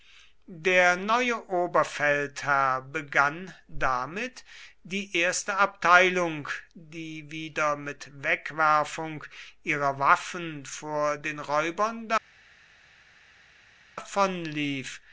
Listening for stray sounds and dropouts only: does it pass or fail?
pass